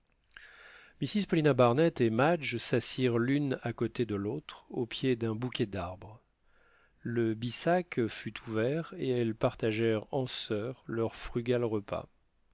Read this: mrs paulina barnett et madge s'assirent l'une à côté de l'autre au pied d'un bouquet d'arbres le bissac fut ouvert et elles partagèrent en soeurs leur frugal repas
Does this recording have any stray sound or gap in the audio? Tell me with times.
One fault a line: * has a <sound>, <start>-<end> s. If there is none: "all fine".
all fine